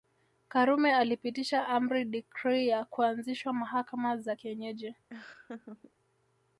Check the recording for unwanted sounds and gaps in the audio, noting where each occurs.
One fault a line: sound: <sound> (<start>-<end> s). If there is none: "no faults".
sound: laugh (5.1-5.9 s)